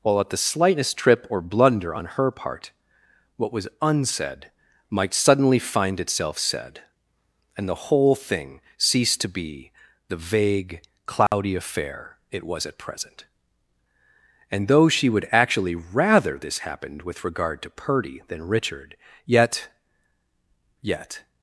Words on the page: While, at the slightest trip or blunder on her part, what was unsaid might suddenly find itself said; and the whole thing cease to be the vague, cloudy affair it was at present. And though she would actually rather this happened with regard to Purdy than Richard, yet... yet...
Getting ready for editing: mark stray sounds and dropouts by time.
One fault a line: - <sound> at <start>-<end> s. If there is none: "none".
- dropout at 11.3-11.3 s